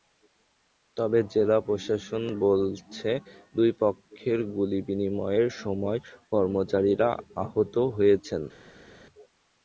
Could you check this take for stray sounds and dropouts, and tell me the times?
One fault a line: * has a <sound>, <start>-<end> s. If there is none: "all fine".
all fine